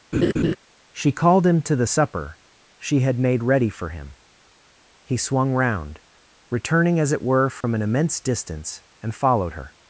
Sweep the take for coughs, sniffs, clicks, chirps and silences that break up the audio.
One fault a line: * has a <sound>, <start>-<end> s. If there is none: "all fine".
* has a laugh, 0.1-0.6 s
* has a dropout, 7.6-7.6 s